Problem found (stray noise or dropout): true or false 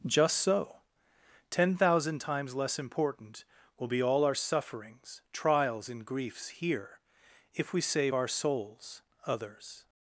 false